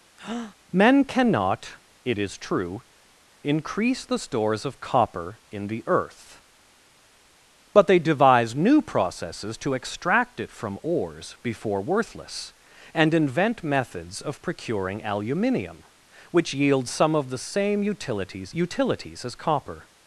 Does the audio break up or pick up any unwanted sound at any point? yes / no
yes